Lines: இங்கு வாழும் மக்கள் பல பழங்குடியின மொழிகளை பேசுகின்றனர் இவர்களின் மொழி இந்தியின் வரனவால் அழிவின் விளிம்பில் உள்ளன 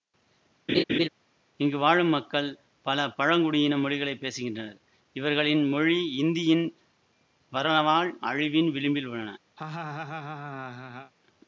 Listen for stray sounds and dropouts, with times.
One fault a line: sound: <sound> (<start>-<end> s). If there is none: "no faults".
sound: laugh (0.7-1.1 s)
sound: laugh (9.6-11.1 s)